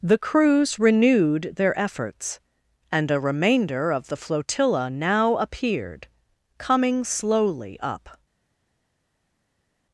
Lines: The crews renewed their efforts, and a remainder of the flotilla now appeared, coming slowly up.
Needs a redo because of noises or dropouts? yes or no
no